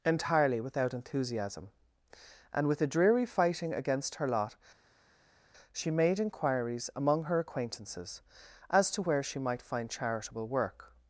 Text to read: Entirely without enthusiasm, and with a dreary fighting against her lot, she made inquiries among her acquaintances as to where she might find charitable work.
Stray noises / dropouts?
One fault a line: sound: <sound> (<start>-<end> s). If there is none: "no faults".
no faults